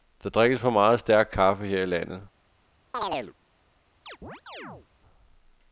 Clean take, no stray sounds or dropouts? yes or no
no